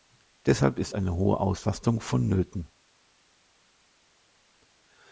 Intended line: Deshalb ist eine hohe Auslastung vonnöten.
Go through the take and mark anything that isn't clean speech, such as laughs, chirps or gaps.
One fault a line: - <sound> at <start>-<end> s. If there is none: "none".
none